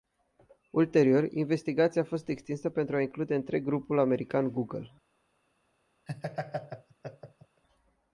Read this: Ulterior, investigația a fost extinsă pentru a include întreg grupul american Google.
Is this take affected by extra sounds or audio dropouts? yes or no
yes